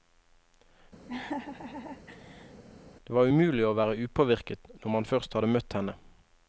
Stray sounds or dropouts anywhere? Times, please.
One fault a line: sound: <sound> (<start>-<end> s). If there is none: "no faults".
sound: laugh (1.1-2.6 s)